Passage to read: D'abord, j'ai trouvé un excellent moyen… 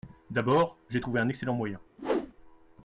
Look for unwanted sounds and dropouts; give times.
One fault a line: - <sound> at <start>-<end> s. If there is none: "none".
- whoosh at 2.0-2.3 s